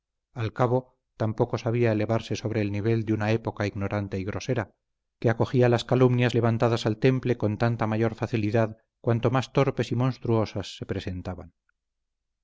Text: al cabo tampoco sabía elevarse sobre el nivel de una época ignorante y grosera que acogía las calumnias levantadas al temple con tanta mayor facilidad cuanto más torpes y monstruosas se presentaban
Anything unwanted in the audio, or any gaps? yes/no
no